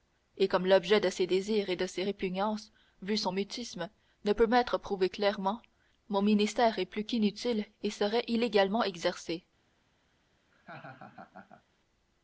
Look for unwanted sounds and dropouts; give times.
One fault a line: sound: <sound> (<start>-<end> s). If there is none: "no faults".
sound: laugh (10.5-11.6 s)